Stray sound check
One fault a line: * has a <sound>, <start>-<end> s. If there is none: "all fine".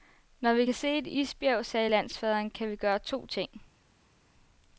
all fine